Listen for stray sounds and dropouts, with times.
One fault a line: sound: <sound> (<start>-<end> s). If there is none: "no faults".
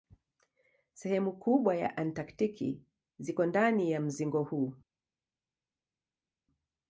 no faults